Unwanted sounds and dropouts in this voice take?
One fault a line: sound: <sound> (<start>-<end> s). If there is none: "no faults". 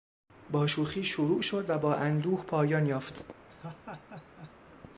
sound: laugh (3.5-4.6 s)